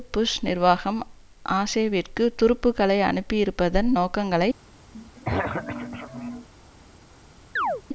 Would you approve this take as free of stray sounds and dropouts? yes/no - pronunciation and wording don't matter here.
no